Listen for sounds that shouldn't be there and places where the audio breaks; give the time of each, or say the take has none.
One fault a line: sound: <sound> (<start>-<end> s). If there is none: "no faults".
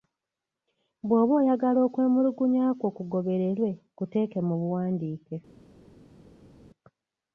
no faults